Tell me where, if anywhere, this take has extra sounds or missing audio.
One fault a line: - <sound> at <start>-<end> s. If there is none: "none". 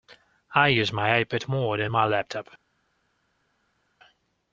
none